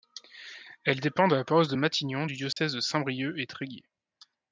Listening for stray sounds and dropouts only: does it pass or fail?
fail